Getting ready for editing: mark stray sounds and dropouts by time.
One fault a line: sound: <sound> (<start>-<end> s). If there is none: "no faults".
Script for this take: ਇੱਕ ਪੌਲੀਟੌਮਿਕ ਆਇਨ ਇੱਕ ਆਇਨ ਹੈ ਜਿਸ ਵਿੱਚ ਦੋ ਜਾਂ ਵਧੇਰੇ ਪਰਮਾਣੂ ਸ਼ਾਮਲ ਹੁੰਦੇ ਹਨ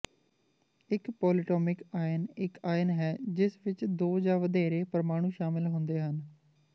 no faults